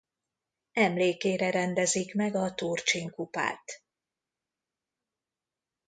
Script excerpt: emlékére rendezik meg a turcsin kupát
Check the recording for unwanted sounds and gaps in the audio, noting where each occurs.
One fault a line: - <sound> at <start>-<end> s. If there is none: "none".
none